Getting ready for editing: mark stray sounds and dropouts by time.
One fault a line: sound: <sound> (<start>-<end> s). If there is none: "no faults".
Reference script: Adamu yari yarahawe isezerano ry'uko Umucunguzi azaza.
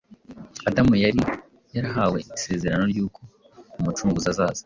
no faults